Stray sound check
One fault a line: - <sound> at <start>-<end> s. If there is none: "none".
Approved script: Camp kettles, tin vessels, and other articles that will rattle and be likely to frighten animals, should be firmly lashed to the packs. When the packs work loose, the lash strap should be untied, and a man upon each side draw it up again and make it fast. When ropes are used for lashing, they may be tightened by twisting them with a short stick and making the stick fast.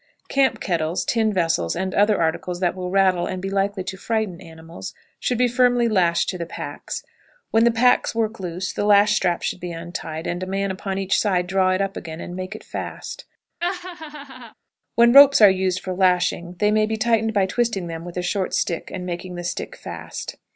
- laugh at 13.6-14.5 s